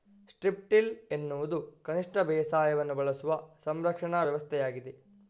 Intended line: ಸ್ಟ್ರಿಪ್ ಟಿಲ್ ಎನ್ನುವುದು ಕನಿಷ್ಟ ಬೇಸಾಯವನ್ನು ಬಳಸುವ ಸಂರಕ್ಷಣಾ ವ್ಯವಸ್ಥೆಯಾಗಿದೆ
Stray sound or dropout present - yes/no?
no